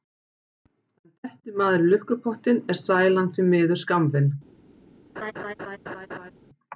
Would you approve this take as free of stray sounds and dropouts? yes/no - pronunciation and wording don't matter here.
no